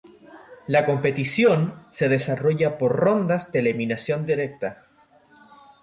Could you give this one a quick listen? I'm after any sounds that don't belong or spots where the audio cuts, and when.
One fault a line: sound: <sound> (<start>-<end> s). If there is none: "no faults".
no faults